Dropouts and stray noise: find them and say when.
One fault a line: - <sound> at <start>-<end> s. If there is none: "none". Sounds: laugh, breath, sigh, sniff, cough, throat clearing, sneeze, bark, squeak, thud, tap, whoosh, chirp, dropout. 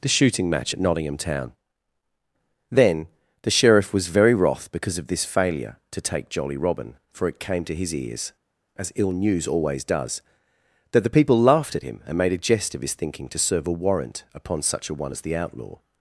none